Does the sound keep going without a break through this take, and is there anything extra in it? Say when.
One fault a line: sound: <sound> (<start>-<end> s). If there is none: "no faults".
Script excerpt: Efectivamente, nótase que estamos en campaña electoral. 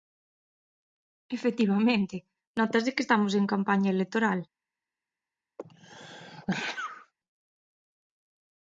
sound: sneeze (5.6-7.1 s)